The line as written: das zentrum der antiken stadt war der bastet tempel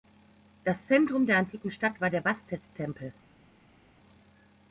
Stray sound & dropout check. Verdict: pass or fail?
pass